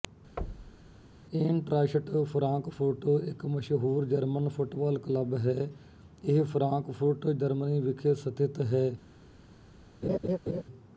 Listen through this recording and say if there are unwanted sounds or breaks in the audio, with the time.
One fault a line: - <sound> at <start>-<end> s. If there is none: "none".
- thud at 0.4-0.9 s
- laugh at 10.0-10.6 s